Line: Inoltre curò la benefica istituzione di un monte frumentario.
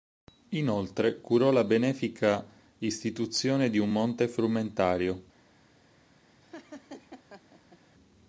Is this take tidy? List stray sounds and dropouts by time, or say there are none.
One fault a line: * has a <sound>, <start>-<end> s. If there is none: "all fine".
* has a laugh, 6.4-7.8 s